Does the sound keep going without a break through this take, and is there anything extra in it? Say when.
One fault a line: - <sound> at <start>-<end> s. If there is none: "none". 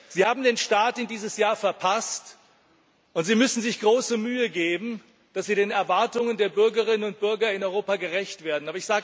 none